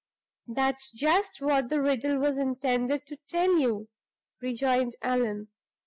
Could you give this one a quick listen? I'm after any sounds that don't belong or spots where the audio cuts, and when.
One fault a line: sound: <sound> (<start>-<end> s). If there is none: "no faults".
no faults